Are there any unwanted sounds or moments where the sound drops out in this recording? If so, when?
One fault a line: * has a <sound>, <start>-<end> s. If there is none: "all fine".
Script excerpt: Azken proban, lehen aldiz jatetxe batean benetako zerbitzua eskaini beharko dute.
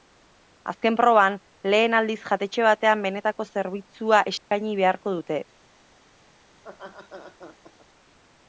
* has a dropout, 4.4-4.5 s
* has a laugh, 6.5-7.9 s